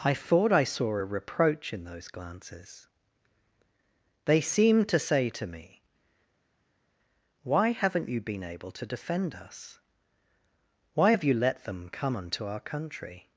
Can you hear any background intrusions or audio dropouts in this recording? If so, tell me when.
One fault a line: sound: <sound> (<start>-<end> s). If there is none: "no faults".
no faults